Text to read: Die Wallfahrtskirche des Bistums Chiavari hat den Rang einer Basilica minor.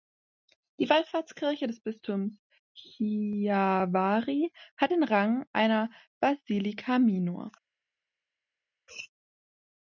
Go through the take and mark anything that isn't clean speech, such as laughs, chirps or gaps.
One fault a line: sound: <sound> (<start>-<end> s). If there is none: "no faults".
no faults